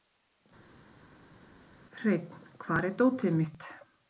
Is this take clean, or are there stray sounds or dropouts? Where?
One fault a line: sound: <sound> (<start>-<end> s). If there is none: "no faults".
no faults